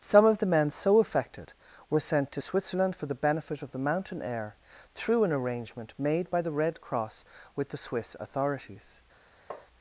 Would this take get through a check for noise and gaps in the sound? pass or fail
fail